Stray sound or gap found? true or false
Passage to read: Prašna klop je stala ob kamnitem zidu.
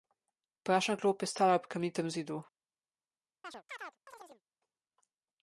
true